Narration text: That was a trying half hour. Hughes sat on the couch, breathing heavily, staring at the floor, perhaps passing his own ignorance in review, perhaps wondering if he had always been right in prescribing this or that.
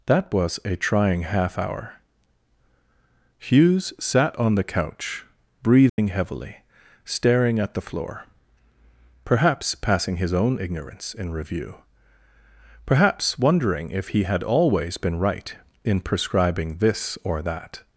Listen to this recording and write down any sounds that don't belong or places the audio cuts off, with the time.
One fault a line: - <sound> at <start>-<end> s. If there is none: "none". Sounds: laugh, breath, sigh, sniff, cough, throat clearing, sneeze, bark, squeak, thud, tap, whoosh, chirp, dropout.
- dropout at 5.9-6.0 s